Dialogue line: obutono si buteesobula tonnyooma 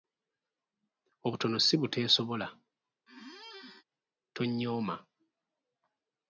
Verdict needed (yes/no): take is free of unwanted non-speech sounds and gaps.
no